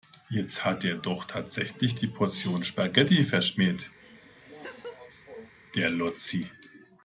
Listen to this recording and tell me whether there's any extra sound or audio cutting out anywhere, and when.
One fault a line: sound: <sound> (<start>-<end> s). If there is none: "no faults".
sound: laugh (4.0-5.5 s)